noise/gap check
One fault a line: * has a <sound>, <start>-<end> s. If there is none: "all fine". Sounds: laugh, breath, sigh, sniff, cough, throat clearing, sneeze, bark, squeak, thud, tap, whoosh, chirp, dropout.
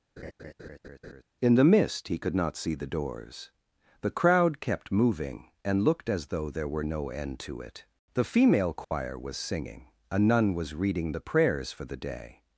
* has a laugh, 0.2-1.2 s
* has a dropout, 8.8-8.9 s